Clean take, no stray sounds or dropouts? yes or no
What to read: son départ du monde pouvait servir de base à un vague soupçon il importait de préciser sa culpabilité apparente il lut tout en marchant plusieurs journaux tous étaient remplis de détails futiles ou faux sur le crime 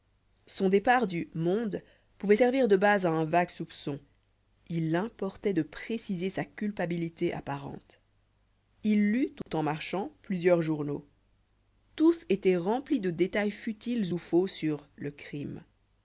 no